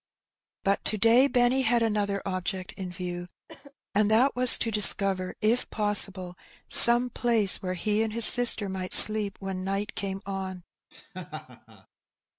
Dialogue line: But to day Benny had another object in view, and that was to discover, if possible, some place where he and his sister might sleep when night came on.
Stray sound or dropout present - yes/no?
yes